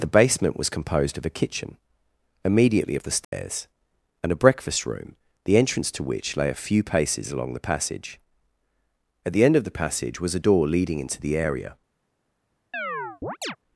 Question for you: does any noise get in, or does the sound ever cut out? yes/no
yes